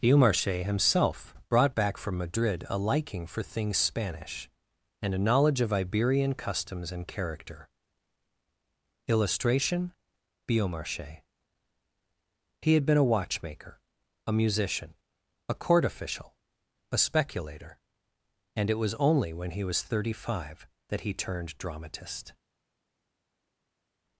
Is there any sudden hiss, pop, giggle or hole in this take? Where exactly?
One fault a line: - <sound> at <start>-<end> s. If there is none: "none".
none